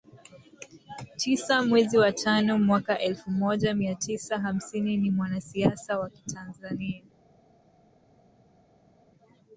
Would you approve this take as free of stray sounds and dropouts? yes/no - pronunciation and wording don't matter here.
yes